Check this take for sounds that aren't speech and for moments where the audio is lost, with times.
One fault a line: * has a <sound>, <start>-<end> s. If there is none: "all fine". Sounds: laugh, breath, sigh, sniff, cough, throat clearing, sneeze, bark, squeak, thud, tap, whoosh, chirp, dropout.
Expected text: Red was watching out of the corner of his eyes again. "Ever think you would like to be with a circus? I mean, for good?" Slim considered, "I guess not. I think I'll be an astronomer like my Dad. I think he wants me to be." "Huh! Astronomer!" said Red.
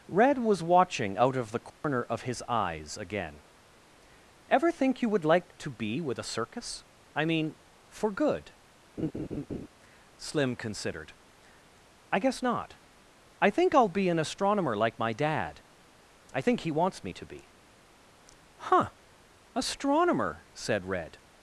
* has a dropout, 1.7-1.8 s
* has a laugh, 9.0-9.7 s